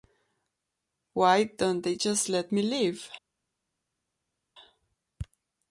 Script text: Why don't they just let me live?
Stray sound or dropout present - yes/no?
no